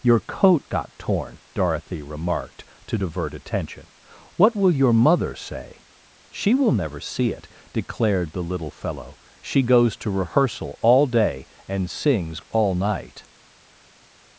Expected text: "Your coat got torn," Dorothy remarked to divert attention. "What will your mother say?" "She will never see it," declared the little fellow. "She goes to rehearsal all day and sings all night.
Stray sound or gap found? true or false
false